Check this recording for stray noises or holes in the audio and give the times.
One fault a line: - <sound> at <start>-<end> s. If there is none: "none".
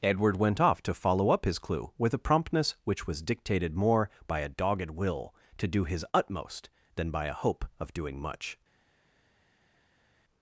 none